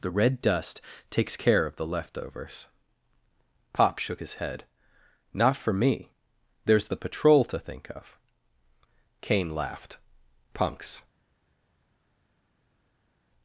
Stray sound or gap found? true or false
false